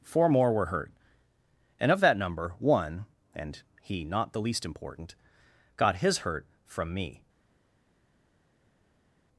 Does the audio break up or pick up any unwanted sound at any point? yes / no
no